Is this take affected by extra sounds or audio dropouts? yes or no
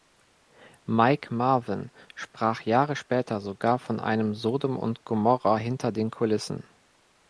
no